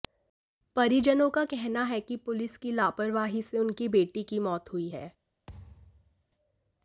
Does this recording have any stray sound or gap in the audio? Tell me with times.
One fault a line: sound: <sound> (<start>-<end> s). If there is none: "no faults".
sound: thud (5.5-6.2 s)